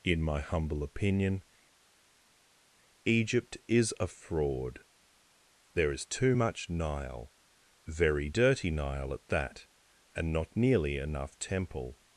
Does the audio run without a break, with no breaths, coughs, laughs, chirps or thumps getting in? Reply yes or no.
yes